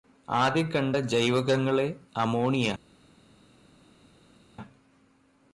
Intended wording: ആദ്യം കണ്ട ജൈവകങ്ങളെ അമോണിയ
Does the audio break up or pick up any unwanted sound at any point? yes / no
no